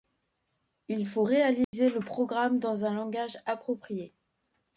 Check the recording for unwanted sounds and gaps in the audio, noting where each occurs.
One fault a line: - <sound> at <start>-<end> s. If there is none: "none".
- dropout at 1.6-1.7 s